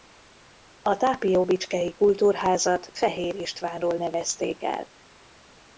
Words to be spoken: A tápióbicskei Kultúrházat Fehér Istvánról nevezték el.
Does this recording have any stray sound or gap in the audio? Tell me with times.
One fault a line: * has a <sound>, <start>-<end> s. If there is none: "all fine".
all fine